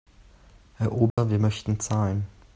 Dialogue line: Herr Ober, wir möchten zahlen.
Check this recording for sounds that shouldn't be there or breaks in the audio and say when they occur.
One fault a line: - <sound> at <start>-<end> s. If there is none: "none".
- dropout at 1.1-1.2 s